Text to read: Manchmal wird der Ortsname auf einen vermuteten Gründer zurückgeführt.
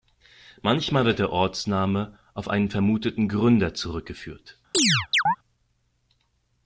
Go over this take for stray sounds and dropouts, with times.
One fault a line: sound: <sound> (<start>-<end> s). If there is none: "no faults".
sound: chirp (4.7-5.4 s)